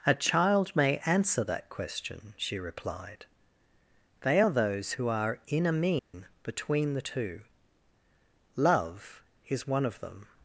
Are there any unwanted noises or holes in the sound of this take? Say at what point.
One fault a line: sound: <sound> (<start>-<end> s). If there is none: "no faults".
sound: dropout (6.0-6.1 s)